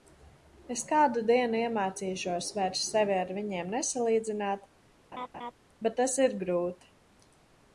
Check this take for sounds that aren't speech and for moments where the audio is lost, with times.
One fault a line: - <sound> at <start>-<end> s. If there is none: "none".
- laugh at 5.1-5.5 s